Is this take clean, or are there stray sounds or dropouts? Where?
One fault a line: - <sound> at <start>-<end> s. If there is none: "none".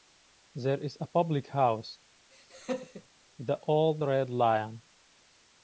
- laugh at 2.3-3.1 s